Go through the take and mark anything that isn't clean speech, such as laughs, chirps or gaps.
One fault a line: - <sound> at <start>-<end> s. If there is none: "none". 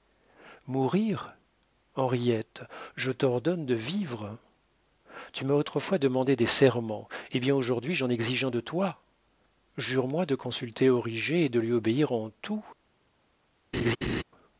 - laugh at 13.7-14.2 s